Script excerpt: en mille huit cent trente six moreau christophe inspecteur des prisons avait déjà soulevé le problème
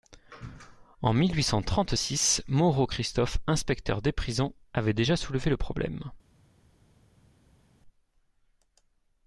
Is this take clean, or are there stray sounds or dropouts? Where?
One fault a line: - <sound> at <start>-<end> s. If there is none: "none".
none